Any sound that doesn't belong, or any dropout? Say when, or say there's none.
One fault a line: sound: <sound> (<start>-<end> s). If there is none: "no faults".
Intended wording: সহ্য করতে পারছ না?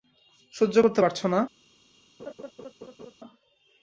sound: laugh (2.2-3.1 s)